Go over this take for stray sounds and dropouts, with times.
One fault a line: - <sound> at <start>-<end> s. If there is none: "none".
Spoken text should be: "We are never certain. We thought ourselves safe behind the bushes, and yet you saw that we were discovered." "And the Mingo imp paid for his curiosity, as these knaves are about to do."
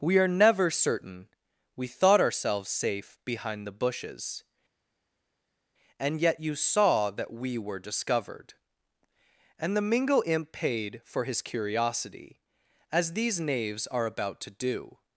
none